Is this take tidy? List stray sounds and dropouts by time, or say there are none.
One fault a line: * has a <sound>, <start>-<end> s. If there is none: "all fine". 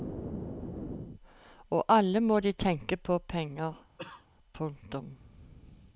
* has a cough, 4.0-4.3 s